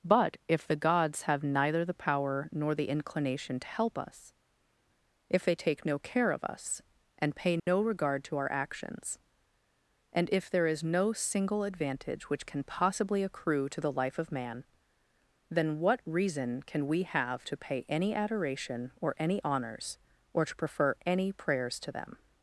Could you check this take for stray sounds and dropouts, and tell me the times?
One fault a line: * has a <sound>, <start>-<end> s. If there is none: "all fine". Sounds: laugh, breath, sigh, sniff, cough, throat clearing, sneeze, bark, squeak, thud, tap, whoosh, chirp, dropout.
* has a dropout, 7.6-7.7 s